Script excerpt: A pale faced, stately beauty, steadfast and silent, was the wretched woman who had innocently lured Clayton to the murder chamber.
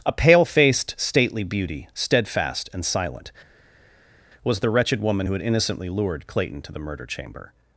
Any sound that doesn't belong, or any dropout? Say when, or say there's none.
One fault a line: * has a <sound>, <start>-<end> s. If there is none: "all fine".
all fine